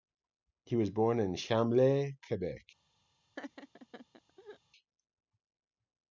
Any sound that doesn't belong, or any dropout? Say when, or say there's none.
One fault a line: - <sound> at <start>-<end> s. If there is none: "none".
- laugh at 3.4-4.6 s